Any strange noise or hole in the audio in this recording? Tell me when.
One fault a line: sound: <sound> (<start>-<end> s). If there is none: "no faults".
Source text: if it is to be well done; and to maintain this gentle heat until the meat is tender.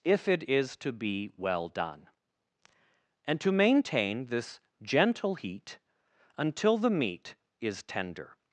no faults